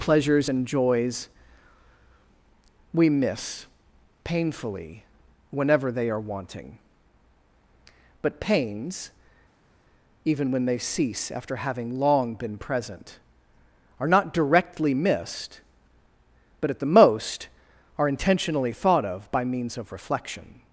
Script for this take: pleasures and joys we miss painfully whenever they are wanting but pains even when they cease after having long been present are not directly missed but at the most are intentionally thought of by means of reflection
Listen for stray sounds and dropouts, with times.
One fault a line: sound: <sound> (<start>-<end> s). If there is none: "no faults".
no faults